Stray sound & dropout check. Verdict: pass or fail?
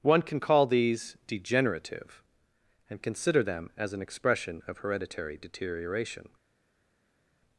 pass